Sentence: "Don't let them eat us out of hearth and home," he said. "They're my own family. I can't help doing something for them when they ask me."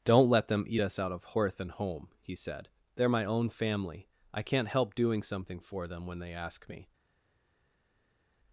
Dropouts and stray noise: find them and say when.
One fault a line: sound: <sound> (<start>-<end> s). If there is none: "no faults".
no faults